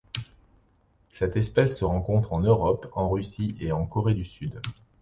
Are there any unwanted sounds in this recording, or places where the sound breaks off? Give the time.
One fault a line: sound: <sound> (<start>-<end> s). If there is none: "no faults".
no faults